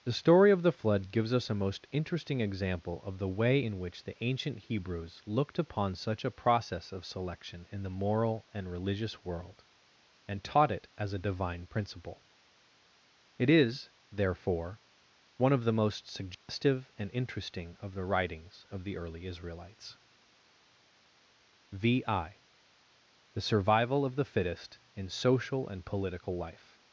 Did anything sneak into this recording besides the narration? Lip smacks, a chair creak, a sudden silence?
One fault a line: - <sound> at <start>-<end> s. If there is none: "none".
- dropout at 16.3-16.5 s